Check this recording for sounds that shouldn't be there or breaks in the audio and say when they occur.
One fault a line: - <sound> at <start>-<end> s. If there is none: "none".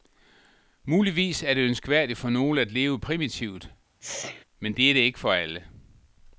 - sneeze at 4.0-4.4 s